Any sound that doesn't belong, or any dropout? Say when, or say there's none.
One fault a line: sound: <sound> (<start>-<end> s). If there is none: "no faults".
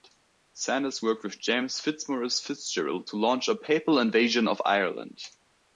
no faults